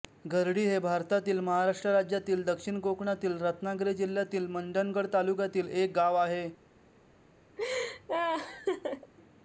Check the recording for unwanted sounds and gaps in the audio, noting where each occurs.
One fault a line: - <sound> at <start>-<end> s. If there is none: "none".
- laugh at 7.6-9.1 s